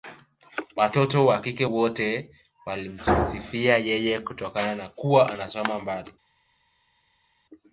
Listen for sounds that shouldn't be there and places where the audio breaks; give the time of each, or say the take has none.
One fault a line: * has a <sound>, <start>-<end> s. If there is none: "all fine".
all fine